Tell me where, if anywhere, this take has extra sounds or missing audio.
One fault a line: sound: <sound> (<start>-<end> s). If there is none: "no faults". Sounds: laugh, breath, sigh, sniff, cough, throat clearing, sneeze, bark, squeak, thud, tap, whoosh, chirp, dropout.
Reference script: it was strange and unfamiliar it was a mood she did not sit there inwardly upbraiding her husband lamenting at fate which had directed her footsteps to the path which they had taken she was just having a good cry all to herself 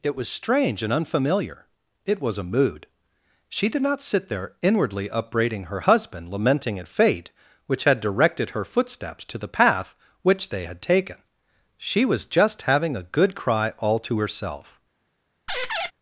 sound: squeak (15.5-15.9 s)